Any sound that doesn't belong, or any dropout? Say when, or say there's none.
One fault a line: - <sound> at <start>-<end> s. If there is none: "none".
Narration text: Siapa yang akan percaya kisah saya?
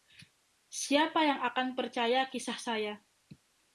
none